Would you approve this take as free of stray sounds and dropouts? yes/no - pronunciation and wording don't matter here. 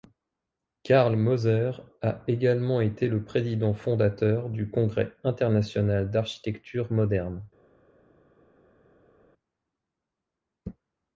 yes